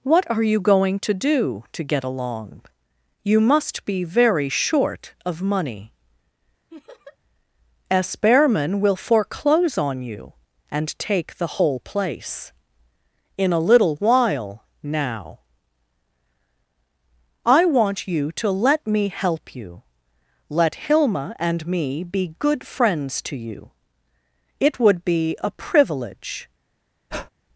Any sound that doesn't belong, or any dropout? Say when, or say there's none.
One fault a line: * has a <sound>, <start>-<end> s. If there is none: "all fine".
* has a laugh, 6.7-7.2 s
* has a breath, 27.1-27.3 s